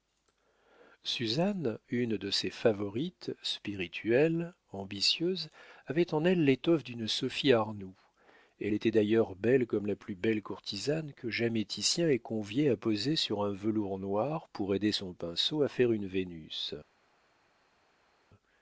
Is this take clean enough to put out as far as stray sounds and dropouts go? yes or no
yes